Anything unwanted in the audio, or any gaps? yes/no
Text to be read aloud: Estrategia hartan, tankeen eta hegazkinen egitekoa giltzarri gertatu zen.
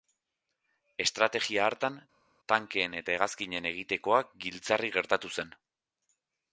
no